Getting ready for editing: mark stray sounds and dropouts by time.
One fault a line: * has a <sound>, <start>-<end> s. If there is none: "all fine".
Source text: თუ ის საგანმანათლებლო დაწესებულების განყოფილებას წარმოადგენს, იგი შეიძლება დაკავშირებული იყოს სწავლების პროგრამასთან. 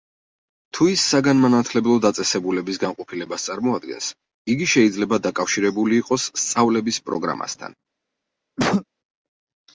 * has a cough, 8.6-8.8 s